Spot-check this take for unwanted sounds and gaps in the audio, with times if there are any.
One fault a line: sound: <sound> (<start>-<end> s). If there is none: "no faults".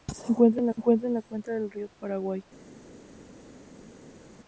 no faults